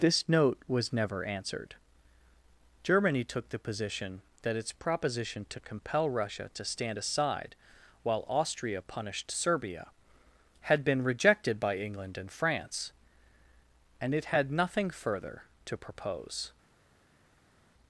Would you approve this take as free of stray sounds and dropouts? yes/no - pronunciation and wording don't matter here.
yes